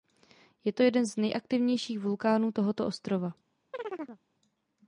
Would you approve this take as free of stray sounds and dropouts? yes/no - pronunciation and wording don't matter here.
no